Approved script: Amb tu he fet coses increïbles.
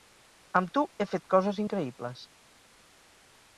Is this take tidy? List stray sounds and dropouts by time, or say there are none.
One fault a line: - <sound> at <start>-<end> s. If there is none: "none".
none